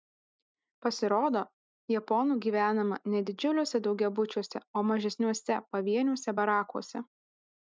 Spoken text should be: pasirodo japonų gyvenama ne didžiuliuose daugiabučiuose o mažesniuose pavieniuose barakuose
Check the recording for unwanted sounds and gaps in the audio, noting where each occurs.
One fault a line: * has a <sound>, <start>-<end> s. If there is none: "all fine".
all fine